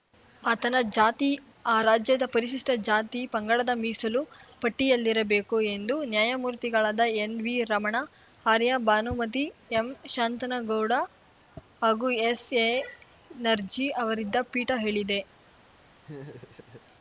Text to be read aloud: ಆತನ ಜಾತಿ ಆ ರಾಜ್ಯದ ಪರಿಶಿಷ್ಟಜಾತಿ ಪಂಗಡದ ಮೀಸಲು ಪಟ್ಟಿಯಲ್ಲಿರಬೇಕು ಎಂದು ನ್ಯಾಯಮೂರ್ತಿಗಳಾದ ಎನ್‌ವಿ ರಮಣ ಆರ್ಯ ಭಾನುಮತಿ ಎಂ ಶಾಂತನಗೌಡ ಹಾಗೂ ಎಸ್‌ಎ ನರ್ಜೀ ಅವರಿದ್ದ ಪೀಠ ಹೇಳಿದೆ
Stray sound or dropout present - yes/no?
yes